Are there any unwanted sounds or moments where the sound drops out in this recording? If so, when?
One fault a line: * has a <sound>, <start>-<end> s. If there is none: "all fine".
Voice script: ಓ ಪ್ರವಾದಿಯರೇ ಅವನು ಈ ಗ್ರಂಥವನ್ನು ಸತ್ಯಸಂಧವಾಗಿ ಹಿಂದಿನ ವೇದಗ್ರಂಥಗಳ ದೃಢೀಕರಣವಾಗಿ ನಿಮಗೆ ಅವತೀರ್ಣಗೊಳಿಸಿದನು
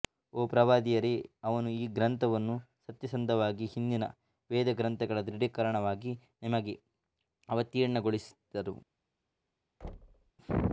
* has a thud, 9.8-10.3 s